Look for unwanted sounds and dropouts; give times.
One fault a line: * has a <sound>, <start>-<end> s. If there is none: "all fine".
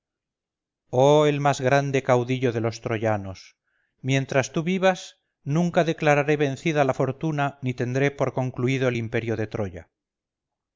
all fine